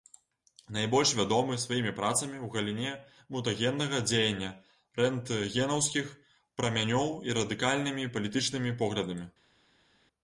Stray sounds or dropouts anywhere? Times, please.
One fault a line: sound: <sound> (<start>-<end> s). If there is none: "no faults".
no faults